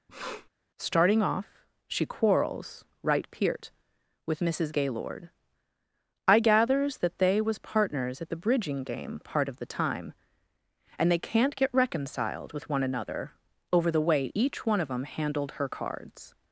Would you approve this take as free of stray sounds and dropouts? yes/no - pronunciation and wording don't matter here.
no